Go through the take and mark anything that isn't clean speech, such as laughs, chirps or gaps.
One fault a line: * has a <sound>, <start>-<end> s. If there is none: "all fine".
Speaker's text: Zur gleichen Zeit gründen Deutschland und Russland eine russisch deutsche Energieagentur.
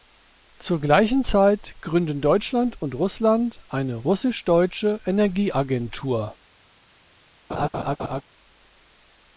* has a laugh, 7.5-8.2 s